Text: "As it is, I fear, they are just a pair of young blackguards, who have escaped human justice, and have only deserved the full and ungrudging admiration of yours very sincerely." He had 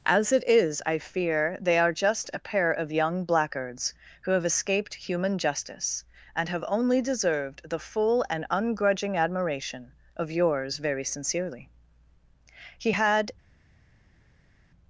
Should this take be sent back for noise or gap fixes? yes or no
no